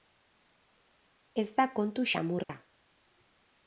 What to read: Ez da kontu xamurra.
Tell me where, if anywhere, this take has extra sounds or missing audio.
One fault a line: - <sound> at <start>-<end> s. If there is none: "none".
- dropout at 2.4-2.5 s